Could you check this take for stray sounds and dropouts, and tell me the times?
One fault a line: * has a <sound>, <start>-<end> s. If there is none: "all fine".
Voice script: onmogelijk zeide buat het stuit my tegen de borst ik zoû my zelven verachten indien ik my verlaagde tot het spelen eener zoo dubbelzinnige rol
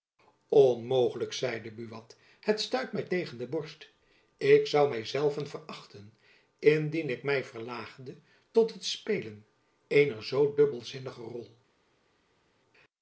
all fine